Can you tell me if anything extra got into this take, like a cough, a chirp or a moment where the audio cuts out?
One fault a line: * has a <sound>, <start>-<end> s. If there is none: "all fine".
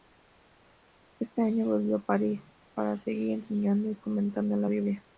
all fine